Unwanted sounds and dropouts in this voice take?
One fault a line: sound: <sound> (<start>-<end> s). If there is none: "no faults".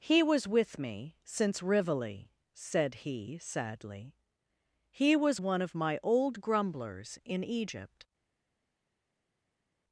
no faults